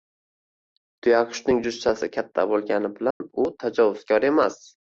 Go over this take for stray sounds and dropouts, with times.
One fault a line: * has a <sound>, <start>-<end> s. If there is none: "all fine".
* has a dropout, 3.1-3.2 s